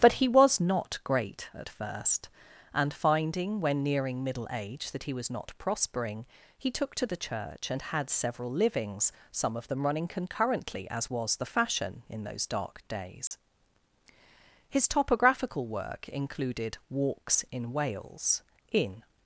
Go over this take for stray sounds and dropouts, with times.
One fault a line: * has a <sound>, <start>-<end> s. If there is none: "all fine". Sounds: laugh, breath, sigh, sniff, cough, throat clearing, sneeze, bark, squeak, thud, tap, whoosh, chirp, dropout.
* has a dropout, 13.3-13.3 s